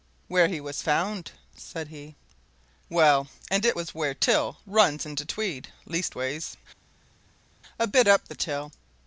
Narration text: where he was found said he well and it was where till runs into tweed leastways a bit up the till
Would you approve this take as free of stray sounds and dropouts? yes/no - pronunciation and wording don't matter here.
yes